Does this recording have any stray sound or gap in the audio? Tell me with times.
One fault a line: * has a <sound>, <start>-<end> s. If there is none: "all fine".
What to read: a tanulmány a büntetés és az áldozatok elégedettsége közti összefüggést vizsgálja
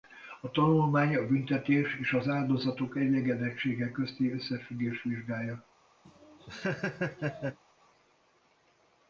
* has a laugh, 6.0-7.6 s